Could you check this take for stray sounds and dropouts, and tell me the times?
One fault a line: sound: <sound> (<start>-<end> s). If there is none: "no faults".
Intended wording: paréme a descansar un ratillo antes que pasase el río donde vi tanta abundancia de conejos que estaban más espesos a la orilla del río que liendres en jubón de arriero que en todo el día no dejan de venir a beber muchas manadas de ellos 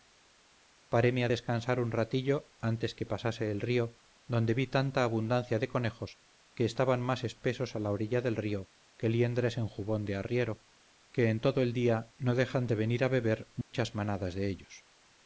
sound: dropout (13.6-13.7 s)